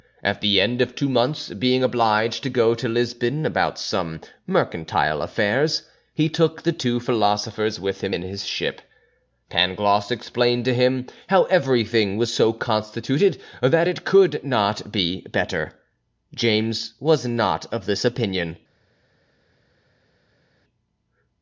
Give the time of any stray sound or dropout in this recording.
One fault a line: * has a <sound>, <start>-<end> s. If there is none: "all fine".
all fine